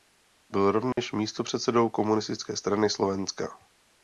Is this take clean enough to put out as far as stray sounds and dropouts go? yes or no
no